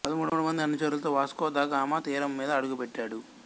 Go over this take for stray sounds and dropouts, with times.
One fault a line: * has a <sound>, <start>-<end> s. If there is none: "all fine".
all fine